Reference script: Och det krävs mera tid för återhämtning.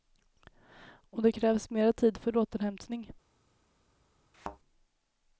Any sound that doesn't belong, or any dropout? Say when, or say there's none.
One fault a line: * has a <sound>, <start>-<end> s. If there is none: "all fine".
* has a thud, 4.3-4.6 s